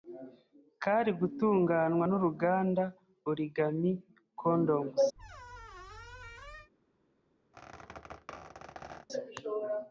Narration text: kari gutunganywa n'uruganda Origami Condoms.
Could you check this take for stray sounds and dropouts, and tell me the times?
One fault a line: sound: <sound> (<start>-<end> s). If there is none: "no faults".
sound: squeak (5.2-6.7 s)
sound: squeak (7.5-9.1 s)